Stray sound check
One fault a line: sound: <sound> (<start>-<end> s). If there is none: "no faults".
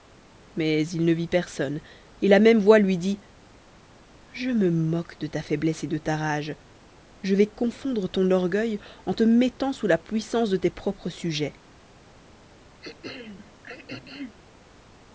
sound: throat clearing (12.8-14.4 s)